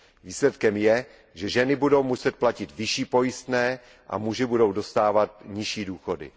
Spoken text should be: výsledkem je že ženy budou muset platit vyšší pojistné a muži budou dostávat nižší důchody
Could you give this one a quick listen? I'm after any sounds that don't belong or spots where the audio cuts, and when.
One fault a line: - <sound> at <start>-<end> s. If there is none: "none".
none